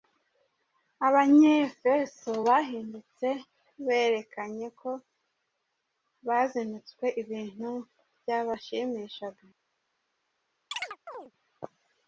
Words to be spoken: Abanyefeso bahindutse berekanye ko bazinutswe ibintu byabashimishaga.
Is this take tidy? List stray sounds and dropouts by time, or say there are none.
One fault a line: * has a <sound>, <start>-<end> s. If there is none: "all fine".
* has a chirp, 10.7-11.3 s